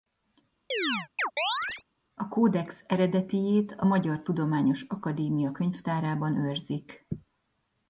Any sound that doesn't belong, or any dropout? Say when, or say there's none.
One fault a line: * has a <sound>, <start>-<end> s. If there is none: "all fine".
* has a chirp, 0.7-1.8 s